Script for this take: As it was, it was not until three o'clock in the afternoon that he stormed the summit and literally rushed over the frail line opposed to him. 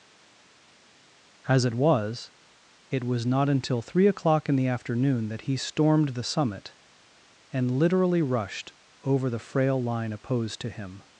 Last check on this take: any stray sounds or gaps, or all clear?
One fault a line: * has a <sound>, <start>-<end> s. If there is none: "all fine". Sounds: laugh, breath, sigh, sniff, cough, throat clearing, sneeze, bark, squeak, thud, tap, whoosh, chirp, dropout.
all fine